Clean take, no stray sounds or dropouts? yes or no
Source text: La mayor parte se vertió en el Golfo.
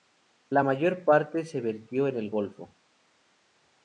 yes